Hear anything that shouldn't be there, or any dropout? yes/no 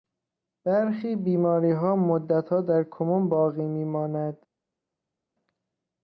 no